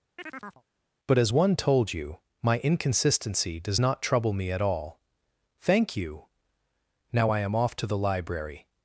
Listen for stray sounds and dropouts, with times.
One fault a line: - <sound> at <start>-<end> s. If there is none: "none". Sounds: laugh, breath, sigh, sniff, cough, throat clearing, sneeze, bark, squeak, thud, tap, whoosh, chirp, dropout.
- chirp at 0.2-0.6 s